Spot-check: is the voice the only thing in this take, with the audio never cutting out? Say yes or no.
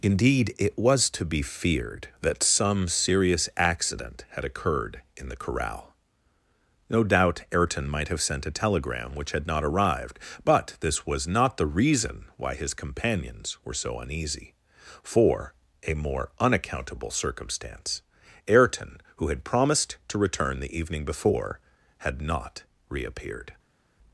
yes